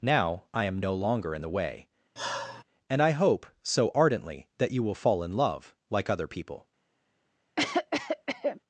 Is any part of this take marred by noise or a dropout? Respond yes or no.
yes